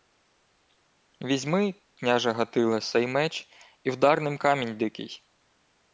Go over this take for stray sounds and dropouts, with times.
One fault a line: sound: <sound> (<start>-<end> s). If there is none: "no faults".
no faults